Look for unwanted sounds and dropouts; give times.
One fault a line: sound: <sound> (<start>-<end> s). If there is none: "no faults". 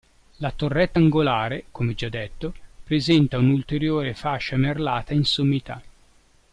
no faults